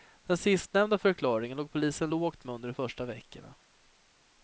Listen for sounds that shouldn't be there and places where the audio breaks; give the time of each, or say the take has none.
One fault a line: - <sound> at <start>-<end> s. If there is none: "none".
none